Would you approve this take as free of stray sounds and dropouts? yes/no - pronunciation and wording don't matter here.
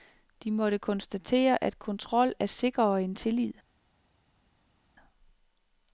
yes